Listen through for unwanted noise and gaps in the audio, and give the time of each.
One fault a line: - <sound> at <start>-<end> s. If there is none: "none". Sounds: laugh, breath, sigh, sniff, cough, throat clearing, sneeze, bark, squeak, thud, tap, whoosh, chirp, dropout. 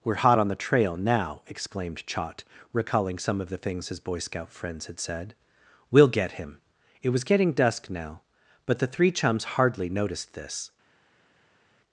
none